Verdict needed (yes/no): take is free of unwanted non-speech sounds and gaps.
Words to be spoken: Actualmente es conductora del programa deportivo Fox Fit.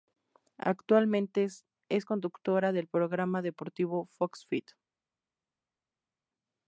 yes